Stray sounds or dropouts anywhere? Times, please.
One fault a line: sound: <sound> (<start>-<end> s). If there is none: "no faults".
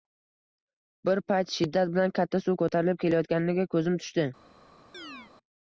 sound: chirp (4.9-5.3 s)